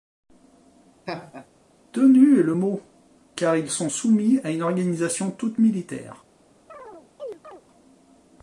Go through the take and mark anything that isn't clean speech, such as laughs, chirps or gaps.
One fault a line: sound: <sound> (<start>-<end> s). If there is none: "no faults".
sound: laugh (1.1-1.5 s)
sound: chirp (6.7-7.6 s)